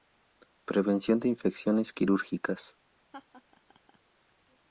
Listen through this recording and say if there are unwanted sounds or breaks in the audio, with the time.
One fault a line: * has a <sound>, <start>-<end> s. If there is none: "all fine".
* has a laugh, 3.1-4.0 s